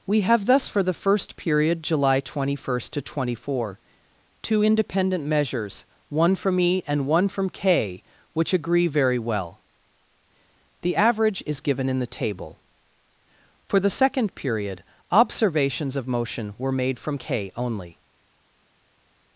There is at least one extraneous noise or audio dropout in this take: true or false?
false